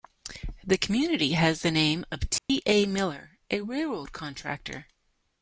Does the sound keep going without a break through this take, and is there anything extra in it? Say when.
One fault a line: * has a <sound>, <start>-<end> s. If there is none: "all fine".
* has a dropout, 2.4-2.5 s